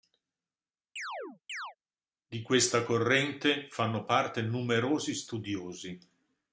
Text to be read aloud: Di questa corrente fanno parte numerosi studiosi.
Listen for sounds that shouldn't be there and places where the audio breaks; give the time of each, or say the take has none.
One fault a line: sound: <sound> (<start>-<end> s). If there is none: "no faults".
sound: chirp (1.0-1.8 s)